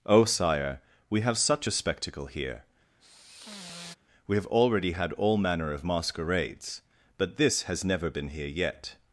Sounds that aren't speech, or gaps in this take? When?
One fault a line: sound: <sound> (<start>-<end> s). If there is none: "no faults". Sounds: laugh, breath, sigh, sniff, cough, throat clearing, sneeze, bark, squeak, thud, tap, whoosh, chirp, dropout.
sound: sigh (3.0-4.0 s)